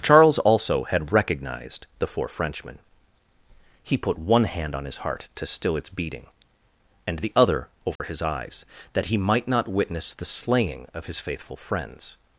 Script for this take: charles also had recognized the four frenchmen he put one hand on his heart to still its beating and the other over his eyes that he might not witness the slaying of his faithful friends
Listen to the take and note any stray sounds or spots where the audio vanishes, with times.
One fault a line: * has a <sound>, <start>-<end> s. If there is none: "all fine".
* has a dropout, 8.0-8.0 s